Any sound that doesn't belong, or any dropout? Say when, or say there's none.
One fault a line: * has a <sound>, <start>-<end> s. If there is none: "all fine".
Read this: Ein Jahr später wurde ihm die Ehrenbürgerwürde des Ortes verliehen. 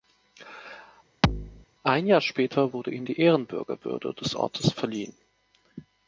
* has a thud, 1.2-1.7 s